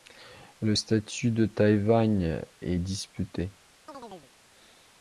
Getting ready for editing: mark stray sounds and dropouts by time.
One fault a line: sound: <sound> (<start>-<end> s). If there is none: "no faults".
sound: chirp (3.9-4.3 s)